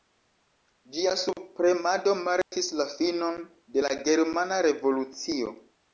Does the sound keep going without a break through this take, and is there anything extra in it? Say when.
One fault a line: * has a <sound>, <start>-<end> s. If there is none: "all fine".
* has a dropout, 2.4-2.5 s